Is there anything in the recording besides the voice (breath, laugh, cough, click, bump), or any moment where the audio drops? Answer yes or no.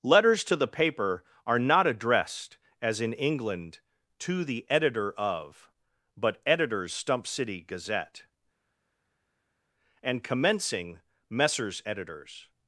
no